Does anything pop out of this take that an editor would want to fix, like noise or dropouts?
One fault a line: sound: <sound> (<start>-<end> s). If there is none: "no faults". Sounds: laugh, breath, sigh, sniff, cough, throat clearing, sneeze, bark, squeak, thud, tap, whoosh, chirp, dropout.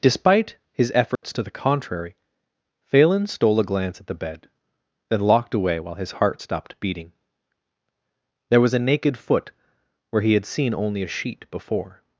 sound: dropout (1.2-1.2 s)